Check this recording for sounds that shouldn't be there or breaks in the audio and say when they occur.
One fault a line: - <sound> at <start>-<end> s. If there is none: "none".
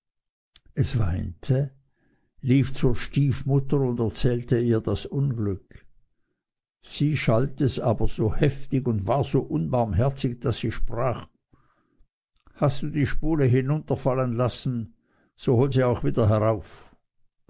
none